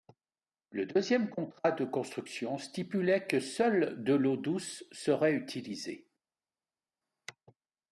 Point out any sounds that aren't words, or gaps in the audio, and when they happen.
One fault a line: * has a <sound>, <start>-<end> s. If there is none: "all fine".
all fine